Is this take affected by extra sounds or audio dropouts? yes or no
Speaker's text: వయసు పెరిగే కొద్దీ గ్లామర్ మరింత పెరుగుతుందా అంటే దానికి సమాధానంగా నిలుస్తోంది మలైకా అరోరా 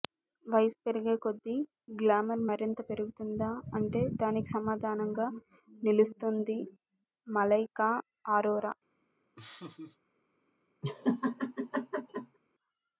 yes